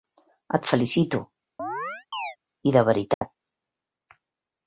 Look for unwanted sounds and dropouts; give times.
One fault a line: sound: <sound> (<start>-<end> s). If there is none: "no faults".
sound: chirp (1.6-2.4 s)
sound: dropout (3.1-3.2 s)